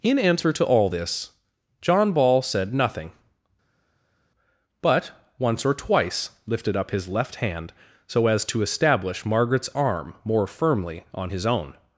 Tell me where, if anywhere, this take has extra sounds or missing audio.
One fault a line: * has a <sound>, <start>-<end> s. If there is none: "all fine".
all fine